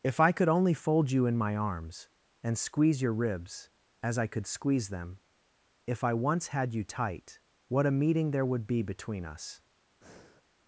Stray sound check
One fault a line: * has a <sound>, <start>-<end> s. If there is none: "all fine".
* has a breath, 10.0-10.4 s